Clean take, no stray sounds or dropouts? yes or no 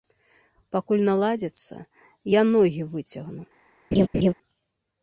no